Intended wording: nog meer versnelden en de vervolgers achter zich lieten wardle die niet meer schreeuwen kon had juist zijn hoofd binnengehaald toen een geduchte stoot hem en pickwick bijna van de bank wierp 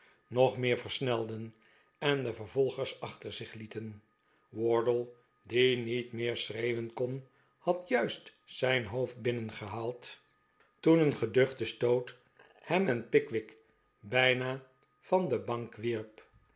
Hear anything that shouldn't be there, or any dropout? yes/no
no